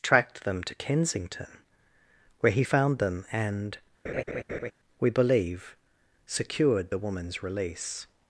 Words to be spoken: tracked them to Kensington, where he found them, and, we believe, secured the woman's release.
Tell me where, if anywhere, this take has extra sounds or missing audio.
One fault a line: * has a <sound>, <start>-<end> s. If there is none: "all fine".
* has a laugh, 4.0-4.7 s